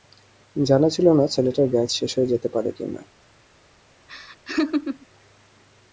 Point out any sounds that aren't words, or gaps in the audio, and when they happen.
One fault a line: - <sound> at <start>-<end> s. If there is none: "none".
- laugh at 4.1-5.1 s